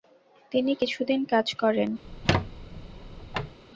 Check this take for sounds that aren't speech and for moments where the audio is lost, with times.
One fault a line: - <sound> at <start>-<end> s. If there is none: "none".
- squeak at 2.0-3.6 s